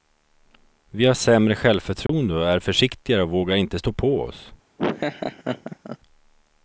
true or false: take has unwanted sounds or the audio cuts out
true